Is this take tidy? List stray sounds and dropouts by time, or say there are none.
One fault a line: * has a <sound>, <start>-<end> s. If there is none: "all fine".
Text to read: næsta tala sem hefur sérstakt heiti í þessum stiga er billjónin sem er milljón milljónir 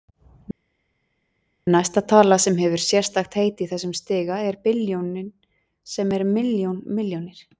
all fine